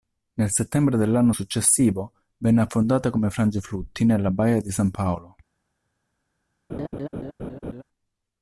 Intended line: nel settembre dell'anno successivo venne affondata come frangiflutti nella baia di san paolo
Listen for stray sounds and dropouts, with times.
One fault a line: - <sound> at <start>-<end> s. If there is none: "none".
- laugh at 6.7-7.8 s